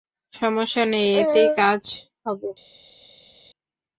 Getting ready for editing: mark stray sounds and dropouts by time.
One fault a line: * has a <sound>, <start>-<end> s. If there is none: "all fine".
all fine